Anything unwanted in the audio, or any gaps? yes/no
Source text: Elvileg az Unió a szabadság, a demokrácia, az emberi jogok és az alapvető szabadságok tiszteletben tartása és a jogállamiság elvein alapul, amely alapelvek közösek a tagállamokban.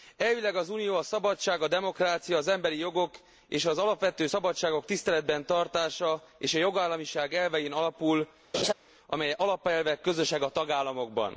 yes